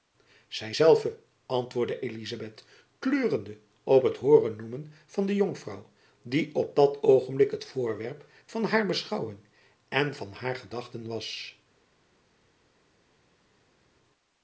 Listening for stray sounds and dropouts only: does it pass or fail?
pass